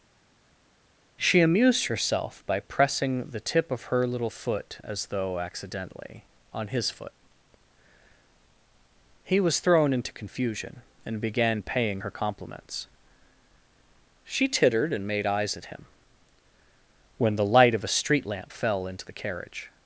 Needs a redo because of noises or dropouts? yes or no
no